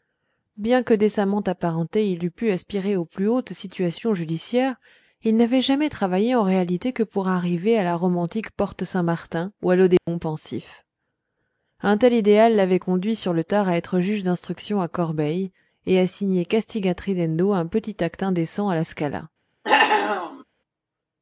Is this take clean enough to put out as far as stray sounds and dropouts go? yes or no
no